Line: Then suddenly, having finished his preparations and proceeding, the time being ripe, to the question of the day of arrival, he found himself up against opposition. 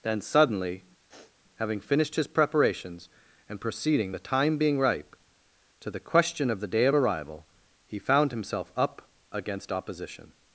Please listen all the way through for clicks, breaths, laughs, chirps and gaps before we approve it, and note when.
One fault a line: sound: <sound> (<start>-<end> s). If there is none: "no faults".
sound: sniff (1.1-1.4 s)